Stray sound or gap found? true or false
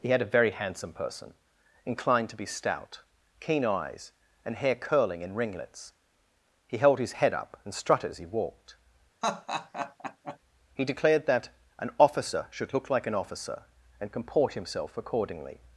true